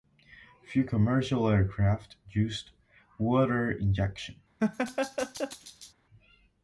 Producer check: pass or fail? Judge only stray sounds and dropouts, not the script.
fail